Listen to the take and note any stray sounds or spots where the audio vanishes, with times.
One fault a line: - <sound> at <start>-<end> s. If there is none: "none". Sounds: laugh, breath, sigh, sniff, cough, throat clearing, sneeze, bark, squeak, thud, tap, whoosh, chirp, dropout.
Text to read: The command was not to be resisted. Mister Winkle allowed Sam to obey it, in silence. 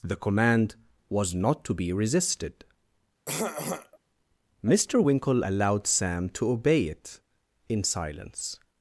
- throat clearing at 3.3-4.0 s